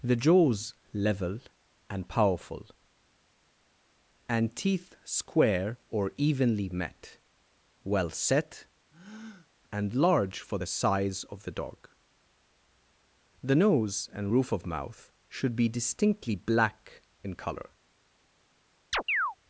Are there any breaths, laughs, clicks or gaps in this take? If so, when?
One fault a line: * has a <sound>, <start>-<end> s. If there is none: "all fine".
* has a breath, 8.9-9.5 s
* has a chirp, 18.9-19.4 s